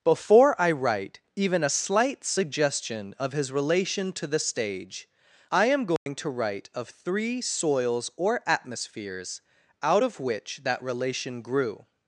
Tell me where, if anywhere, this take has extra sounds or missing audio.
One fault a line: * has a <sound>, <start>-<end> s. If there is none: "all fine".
* has a dropout, 6.0-6.1 s